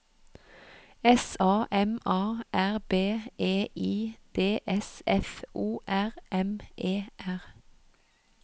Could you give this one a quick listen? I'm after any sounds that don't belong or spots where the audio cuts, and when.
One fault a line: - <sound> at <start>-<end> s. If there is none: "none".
none